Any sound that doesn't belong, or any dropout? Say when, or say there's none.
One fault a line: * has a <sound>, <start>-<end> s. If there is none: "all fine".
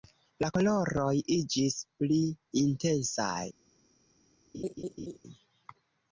* has a laugh, 4.5-5.2 s